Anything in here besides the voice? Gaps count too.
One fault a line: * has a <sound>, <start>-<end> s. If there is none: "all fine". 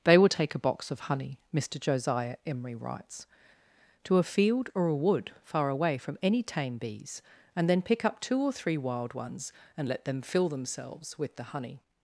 all fine